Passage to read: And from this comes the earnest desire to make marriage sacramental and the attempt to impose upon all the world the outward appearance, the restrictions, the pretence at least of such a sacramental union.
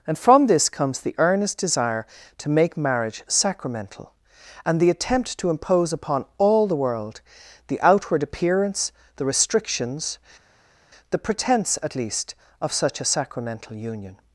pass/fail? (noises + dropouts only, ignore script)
pass